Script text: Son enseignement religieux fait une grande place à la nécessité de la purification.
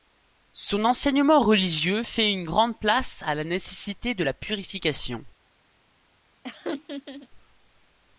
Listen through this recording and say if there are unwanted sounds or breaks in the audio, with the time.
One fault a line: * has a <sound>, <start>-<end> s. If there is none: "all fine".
* has a laugh, 6.4-7.3 s